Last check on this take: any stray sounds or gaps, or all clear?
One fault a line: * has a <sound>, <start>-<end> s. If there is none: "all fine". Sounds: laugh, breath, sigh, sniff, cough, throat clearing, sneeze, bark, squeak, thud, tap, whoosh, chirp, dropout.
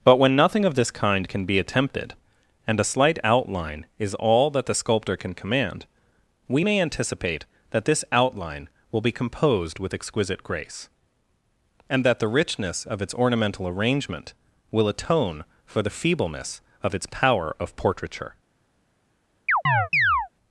* has a chirp, 19.5-20.3 s